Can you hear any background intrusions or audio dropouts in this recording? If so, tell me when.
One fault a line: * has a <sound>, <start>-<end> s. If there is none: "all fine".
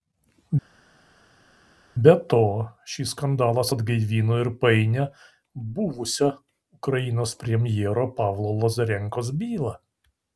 all fine